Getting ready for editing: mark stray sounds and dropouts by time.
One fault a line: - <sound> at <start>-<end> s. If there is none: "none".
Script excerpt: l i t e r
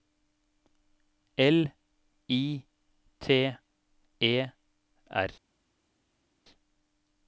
none